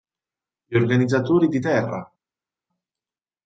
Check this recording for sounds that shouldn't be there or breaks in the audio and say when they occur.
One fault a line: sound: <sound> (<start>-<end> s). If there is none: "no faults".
no faults